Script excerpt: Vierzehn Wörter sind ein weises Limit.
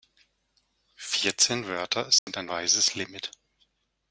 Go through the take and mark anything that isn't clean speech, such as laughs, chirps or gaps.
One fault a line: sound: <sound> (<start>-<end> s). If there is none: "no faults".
sound: dropout (2.2-2.3 s)